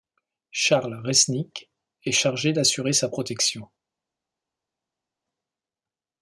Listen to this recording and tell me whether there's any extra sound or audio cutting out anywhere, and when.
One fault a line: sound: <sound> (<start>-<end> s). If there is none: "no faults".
no faults